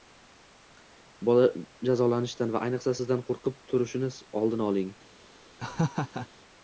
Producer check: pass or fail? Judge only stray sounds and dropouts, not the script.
fail